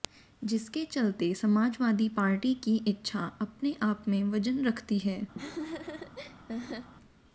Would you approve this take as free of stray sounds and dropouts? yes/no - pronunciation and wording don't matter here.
no